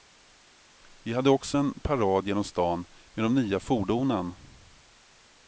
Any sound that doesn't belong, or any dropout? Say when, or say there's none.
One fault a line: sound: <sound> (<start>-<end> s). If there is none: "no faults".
no faults